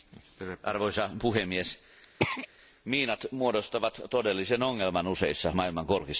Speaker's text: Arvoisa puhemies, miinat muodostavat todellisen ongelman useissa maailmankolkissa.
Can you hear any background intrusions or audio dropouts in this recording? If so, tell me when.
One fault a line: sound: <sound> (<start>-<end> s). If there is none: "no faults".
sound: throat clearing (2.2-2.5 s)